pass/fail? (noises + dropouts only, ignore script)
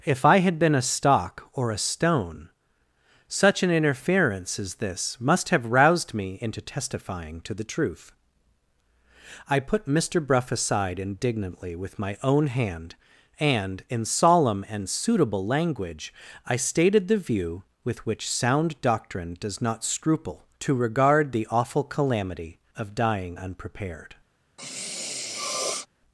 fail